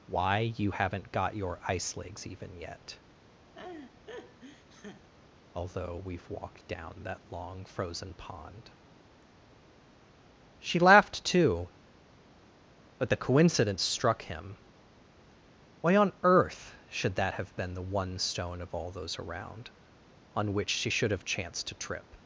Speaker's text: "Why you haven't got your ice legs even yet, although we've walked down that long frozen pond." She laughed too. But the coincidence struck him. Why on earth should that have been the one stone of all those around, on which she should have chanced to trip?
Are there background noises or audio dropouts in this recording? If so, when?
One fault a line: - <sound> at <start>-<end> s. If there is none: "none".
- laugh at 3.5-5.1 s